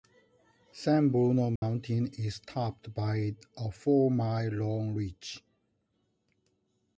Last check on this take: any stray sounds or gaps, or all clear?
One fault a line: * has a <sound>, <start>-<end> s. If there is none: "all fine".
* has a dropout, 1.6-1.6 s